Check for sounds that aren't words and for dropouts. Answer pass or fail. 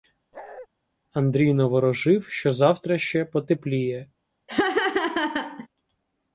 fail